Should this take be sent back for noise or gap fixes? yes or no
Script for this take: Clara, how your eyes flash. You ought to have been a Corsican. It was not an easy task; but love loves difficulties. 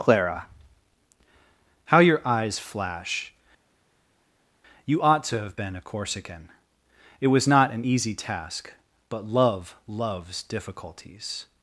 no